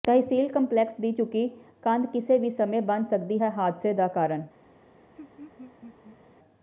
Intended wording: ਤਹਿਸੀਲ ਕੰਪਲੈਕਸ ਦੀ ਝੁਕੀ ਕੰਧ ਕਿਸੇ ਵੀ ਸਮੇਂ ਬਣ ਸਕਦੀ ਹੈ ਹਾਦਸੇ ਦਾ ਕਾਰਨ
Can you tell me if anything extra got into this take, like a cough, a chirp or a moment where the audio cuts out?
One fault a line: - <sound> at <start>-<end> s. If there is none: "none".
- laugh at 5.2-6.2 s